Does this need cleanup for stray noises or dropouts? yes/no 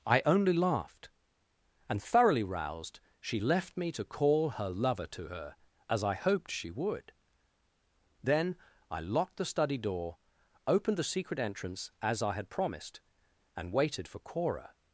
no